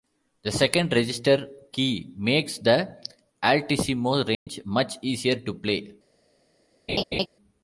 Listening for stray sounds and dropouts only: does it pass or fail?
fail